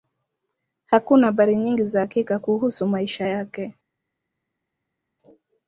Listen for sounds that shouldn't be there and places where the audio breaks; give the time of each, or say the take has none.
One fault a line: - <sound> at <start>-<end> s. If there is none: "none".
none